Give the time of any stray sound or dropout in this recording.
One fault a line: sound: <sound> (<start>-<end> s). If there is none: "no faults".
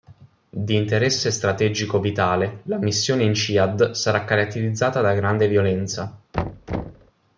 sound: thud (6.3-7.1 s)